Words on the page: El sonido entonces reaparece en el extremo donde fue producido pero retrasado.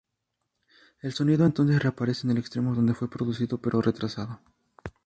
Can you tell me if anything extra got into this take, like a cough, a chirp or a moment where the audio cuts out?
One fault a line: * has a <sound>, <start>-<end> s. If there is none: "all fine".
all fine